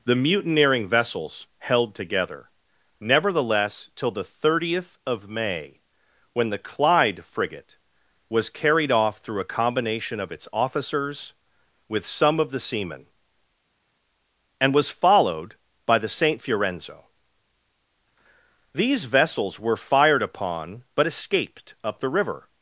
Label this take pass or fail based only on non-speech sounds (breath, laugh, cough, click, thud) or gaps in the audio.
pass